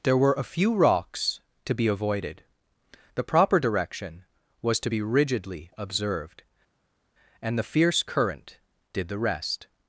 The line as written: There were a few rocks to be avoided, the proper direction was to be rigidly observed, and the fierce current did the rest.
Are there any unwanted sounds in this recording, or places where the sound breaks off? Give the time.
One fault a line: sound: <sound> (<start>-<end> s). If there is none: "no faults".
no faults